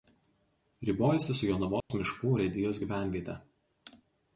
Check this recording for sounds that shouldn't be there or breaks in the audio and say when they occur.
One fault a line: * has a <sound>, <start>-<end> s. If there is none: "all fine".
* has a dropout, 1.8-1.9 s